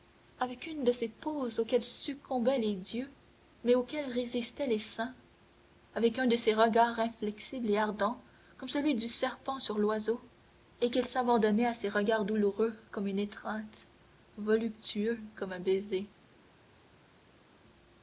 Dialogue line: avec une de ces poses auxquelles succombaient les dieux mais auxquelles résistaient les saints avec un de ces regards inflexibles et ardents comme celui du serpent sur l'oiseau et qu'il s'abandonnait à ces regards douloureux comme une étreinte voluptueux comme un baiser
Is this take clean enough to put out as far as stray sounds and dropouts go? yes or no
yes